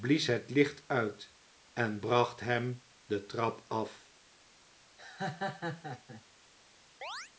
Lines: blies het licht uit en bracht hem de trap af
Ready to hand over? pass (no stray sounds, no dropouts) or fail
fail